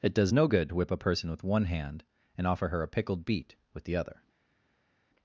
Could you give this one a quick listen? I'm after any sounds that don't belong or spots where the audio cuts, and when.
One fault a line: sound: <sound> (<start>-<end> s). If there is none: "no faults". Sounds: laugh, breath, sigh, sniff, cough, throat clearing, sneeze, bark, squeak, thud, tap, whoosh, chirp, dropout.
no faults